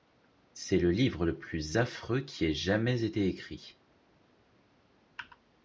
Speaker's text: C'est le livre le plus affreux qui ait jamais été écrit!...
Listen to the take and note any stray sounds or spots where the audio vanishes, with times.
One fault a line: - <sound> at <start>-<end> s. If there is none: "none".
none